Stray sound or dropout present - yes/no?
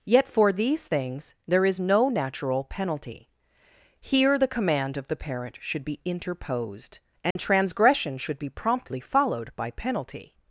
yes